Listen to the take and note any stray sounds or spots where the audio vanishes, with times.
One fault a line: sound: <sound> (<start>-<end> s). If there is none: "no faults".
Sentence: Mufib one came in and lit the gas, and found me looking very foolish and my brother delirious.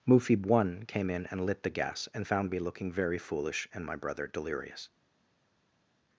no faults